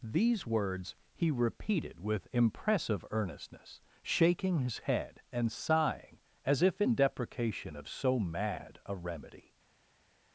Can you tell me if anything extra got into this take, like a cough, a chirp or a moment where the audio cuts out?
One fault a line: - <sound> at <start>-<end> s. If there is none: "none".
none